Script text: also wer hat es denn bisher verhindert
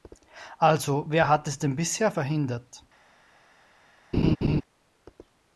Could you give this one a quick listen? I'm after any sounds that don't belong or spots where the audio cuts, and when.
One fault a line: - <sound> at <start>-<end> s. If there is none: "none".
- laugh at 4.1-4.6 s